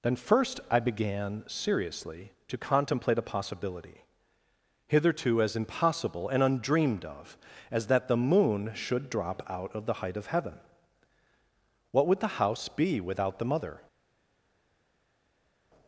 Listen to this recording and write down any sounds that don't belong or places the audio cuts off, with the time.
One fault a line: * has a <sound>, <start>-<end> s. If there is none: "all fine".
all fine